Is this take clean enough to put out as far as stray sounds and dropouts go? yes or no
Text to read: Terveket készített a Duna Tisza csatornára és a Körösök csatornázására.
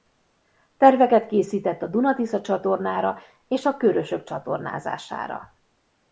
yes